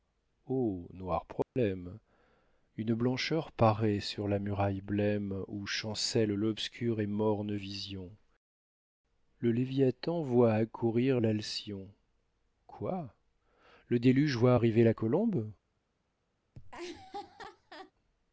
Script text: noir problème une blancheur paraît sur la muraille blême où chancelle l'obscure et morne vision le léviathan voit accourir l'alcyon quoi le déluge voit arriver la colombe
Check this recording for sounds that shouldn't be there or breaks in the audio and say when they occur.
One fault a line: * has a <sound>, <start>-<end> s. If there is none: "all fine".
* has a dropout, 1.4-1.6 s
* has a laugh, 16.5-17.9 s